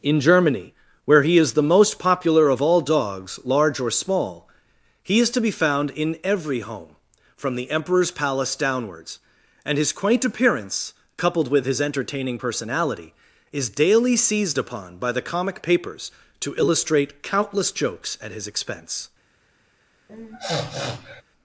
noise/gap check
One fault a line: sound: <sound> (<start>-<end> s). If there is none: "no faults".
sound: sniff (20.1-21.2 s)